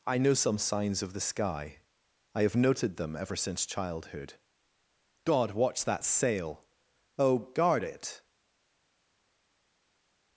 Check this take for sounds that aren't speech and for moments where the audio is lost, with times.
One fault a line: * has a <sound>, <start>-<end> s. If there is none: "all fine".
all fine